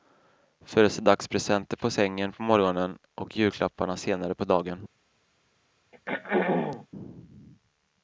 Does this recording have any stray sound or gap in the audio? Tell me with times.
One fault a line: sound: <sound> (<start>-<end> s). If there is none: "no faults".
sound: throat clearing (5.9-6.9 s)